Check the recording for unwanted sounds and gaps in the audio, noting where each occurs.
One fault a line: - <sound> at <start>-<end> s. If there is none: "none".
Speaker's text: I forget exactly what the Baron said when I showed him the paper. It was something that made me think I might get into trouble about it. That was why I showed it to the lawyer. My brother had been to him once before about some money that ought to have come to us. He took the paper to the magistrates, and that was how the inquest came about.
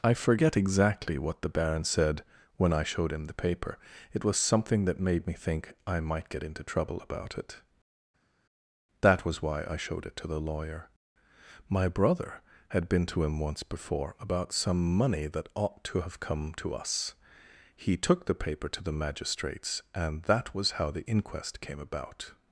none